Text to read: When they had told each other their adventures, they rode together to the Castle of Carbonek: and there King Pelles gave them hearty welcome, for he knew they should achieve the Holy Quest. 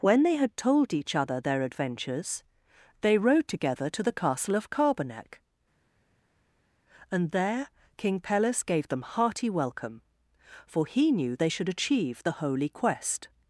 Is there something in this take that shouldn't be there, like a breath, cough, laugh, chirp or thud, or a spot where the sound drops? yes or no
no